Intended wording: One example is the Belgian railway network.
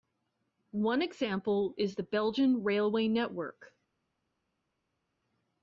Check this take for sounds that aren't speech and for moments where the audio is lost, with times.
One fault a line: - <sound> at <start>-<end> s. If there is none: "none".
none